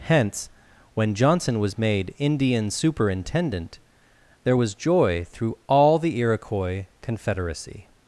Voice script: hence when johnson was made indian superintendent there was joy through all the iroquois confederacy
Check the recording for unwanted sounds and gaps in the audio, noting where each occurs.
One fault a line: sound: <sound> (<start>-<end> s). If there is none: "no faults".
no faults